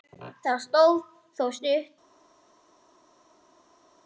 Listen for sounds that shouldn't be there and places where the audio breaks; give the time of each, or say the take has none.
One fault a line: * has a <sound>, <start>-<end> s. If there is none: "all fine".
all fine